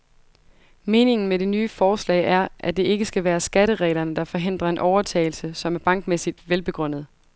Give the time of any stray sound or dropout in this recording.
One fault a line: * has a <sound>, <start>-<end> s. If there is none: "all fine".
all fine